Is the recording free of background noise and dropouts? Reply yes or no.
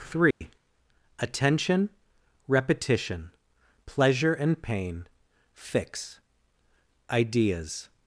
no